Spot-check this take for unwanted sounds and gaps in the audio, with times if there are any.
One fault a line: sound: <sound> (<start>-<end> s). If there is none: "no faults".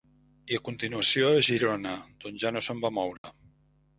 sound: dropout (3.2-3.2 s)